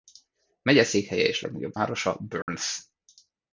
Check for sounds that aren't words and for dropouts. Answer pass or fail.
fail